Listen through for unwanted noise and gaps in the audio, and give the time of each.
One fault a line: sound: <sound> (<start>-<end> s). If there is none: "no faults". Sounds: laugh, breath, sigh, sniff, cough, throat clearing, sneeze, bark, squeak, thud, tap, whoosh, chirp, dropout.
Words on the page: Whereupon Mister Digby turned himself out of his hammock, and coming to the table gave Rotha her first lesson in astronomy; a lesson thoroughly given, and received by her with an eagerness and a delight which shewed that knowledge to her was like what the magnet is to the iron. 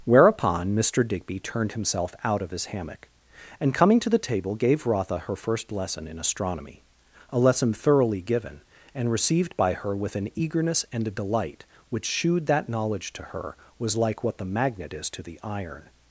no faults